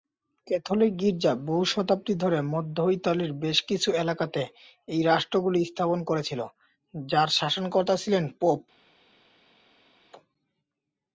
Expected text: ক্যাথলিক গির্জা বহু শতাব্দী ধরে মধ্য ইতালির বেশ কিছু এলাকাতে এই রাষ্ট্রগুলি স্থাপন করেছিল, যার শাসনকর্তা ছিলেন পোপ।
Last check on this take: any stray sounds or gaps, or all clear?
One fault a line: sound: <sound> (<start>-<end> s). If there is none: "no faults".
no faults